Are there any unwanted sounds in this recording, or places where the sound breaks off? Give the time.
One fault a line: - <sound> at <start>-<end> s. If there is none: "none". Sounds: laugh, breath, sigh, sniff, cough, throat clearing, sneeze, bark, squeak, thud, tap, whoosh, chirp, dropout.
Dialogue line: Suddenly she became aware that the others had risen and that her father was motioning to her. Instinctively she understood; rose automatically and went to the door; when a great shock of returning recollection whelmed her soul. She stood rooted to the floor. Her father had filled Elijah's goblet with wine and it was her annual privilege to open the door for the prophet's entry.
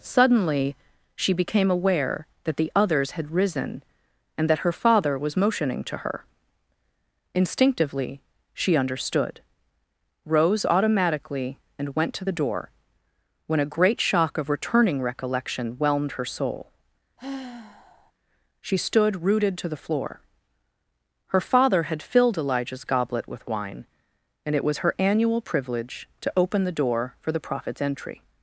- sigh at 17.2-18.1 s